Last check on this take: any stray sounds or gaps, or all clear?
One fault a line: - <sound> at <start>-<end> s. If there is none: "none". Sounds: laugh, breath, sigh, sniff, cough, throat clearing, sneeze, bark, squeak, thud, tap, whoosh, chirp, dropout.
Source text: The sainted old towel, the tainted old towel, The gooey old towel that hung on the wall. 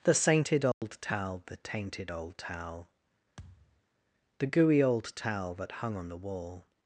- dropout at 0.7-0.8 s
- thud at 3.4-3.8 s